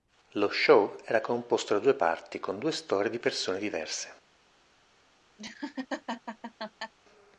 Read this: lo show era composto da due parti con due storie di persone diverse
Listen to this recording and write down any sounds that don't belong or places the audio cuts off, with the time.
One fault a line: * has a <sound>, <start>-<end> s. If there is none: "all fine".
* has a laugh, 5.4-6.9 s